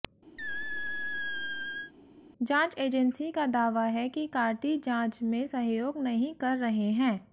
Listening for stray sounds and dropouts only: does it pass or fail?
fail